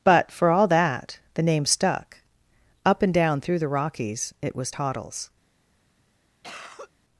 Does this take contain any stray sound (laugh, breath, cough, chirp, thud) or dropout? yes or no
yes